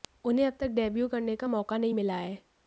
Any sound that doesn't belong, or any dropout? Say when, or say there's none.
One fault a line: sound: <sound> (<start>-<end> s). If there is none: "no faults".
no faults